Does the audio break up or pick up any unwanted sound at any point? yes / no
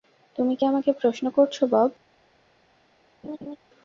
yes